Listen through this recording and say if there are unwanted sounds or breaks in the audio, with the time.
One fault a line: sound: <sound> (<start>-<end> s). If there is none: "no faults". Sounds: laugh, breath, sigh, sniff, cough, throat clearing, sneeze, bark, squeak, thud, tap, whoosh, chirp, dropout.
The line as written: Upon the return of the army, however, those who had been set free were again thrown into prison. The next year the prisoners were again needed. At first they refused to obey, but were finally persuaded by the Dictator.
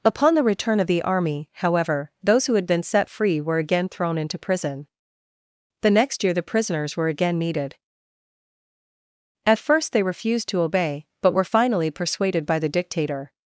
no faults